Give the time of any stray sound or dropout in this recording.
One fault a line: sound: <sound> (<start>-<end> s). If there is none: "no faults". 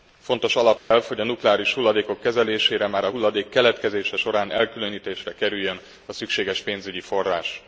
sound: dropout (0.8-0.9 s)